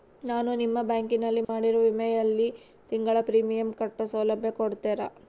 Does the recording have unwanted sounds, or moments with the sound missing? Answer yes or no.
yes